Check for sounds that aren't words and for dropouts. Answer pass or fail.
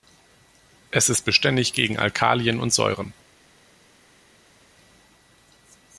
pass